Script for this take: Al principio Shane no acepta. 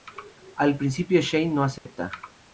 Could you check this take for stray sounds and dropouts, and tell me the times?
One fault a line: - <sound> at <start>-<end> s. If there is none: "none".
- dropout at 1.8-1.9 s